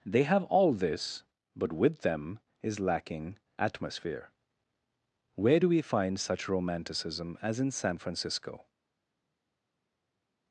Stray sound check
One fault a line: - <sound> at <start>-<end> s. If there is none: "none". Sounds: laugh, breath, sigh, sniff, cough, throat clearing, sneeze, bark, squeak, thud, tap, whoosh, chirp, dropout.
none